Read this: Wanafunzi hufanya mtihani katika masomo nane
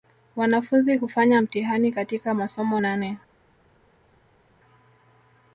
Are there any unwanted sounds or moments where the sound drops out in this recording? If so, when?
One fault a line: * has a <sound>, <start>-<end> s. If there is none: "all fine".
all fine